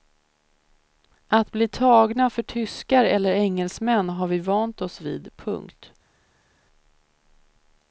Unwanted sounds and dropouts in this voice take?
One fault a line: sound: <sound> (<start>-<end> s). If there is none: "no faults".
no faults